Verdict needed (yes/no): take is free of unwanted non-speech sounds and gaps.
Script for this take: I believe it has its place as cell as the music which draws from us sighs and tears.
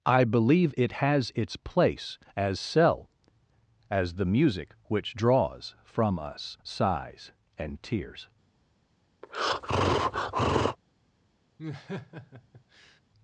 no